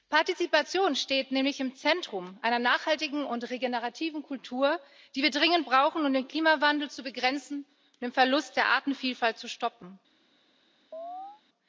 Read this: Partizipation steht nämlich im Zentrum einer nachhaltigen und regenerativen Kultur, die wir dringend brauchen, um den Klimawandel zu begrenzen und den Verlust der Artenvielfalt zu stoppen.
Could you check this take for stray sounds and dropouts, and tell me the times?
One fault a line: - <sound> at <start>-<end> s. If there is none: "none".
- chirp at 10.9-11.4 s